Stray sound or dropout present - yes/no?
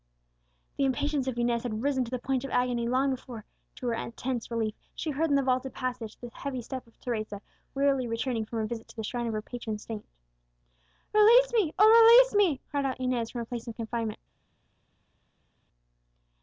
no